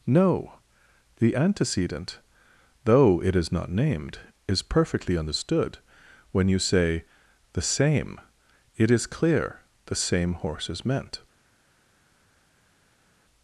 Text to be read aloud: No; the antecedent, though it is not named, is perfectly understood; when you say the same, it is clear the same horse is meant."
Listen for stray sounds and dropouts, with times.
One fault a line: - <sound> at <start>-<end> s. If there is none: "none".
none